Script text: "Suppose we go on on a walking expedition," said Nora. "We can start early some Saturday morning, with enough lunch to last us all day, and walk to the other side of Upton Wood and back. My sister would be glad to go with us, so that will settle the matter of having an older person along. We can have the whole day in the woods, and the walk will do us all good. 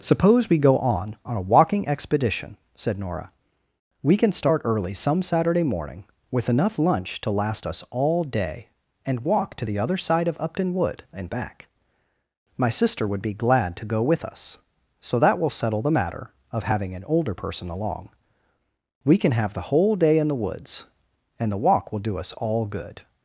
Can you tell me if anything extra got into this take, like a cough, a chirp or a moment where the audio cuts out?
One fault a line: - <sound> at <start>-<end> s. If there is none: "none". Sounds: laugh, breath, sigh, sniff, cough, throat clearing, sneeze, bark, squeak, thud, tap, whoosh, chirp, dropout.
none